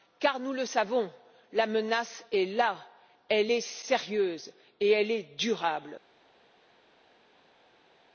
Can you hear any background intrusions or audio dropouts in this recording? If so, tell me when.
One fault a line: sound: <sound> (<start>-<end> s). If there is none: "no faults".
no faults